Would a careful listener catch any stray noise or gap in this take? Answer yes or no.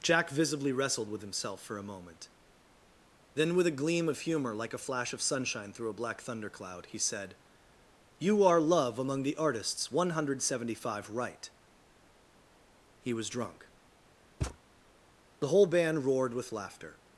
yes